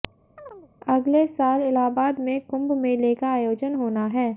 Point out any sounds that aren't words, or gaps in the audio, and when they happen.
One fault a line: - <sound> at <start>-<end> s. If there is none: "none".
- chirp at 0.4-0.7 s